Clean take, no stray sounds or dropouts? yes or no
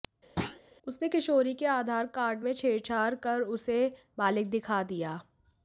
no